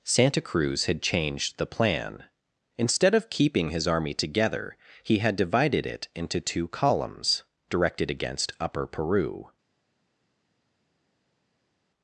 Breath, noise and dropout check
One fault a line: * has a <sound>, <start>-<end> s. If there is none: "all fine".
all fine